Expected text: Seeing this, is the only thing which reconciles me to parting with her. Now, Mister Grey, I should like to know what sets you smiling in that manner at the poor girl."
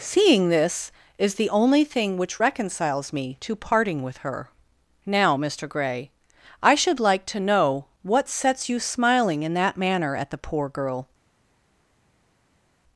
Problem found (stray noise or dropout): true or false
false